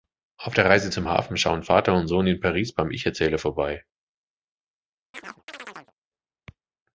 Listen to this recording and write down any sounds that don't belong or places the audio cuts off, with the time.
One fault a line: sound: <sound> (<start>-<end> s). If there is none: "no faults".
sound: chirp (5.1-5.9 s)